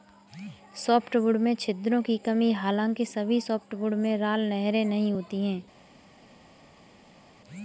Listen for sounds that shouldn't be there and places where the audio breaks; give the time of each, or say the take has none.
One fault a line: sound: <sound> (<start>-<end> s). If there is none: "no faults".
no faults